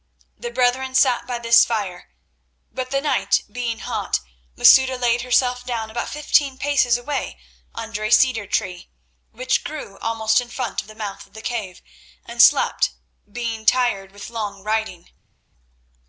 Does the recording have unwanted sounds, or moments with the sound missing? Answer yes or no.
no